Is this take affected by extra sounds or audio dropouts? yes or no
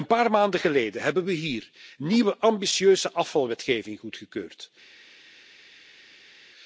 no